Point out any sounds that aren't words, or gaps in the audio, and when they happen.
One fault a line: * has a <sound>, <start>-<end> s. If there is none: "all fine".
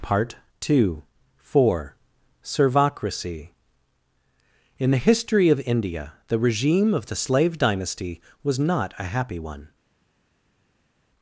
all fine